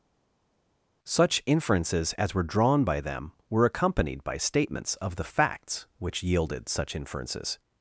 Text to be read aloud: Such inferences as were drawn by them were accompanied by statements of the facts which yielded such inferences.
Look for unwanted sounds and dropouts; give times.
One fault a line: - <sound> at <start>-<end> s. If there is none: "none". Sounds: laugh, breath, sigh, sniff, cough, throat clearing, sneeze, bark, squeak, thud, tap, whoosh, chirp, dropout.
none